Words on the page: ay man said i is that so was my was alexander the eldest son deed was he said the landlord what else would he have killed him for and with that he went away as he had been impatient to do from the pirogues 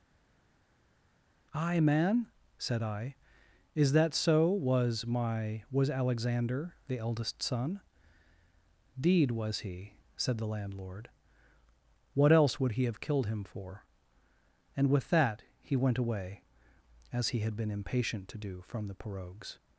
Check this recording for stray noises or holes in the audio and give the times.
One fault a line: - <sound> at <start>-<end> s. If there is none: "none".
none